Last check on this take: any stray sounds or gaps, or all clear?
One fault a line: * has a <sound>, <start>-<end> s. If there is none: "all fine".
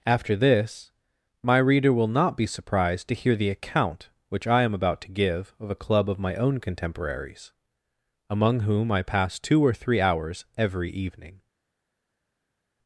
all fine